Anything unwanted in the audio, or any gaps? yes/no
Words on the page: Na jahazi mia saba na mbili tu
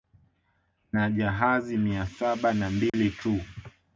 yes